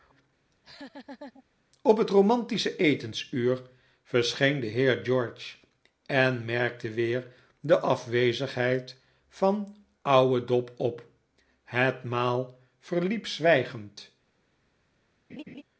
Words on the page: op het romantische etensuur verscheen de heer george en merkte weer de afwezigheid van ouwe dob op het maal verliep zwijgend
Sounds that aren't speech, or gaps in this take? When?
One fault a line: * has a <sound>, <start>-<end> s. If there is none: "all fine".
* has a laugh, 0.5-1.4 s
* has a laugh, 15.3-15.6 s